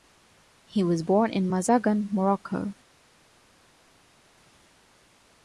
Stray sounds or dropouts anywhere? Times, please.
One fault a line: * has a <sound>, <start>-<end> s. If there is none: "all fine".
all fine